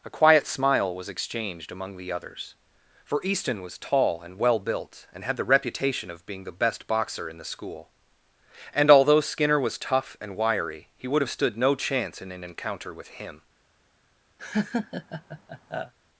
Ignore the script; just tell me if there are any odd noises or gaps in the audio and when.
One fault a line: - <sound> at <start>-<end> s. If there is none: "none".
- laugh at 14.4-15.9 s